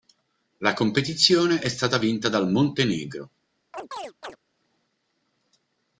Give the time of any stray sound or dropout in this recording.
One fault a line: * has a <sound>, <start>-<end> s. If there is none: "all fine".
* has a chirp, 3.7-4.4 s